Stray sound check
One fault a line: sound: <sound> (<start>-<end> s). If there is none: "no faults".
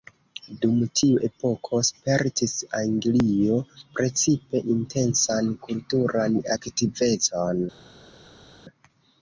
no faults